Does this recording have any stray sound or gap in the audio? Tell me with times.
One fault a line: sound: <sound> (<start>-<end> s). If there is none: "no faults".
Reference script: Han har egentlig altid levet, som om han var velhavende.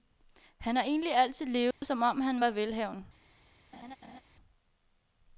sound: dropout (1.7-1.8 s)
sound: laugh (3.7-4.2 s)